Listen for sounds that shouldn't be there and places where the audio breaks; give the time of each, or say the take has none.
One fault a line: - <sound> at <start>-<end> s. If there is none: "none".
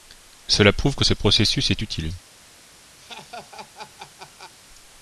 - laugh at 3.0-4.5 s